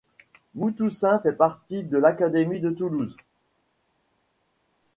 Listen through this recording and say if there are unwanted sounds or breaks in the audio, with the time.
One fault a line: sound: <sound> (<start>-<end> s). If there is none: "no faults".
no faults